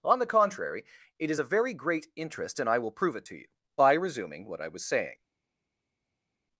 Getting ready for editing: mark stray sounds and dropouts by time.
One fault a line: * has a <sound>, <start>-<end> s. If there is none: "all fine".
all fine